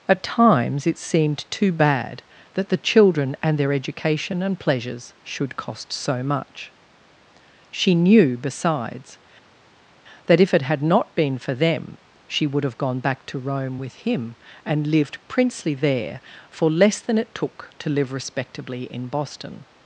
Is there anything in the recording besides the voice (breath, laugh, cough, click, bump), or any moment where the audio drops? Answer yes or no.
no